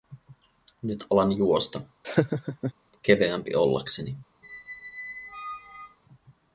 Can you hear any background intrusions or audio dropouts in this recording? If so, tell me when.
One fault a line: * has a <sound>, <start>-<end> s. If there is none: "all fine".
* has a laugh, 2.0-2.7 s
* has a squeak, 4.4-6.0 s